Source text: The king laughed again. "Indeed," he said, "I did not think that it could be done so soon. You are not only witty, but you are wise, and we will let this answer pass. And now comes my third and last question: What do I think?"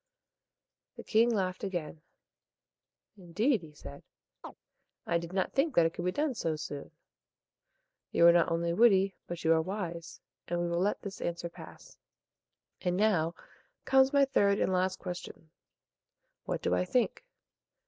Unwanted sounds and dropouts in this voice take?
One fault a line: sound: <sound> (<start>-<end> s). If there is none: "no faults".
sound: chirp (4.4-4.6 s)